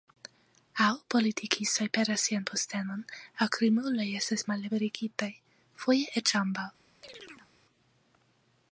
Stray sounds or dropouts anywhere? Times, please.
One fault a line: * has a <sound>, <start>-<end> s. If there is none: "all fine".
* has a chirp, 7.0-7.5 s